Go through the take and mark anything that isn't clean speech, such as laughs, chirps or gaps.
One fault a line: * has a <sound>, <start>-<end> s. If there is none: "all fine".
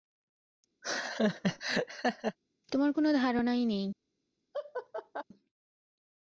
* has a laugh, 0.8-2.4 s
* has a laugh, 4.5-5.2 s